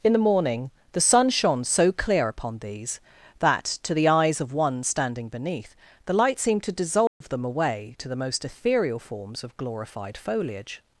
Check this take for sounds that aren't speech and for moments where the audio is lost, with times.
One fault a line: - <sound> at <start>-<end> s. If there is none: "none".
- dropout at 7.1-7.2 s